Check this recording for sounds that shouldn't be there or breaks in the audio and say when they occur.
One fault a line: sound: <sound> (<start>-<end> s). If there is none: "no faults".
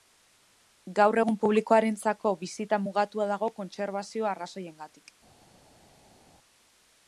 no faults